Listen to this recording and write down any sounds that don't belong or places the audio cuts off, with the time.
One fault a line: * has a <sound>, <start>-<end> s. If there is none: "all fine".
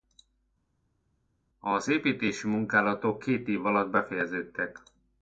all fine